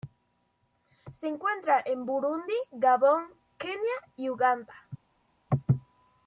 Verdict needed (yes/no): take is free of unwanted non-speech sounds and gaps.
yes